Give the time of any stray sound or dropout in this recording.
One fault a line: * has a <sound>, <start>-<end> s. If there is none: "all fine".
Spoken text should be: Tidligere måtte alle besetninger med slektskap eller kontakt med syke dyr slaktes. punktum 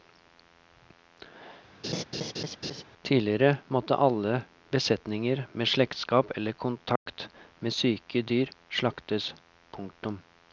* has a laugh, 1.8-2.8 s
* has a dropout, 7.0-7.1 s